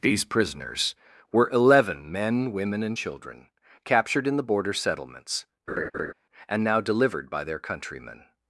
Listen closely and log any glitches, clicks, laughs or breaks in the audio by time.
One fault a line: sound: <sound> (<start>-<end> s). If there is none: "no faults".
sound: laugh (5.7-6.1 s)